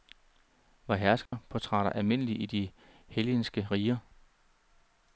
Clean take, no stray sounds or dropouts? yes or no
no